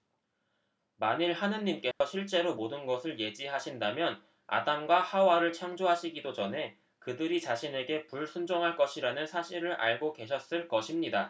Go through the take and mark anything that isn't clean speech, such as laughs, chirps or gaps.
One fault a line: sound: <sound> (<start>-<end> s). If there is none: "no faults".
sound: dropout (1.9-2.0 s)